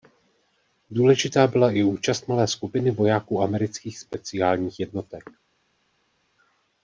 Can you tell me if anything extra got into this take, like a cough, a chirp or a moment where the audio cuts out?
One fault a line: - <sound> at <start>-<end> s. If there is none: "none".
none